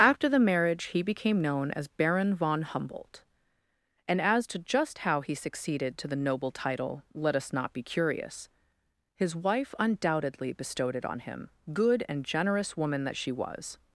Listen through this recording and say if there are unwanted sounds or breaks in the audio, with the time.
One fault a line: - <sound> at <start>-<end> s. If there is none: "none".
none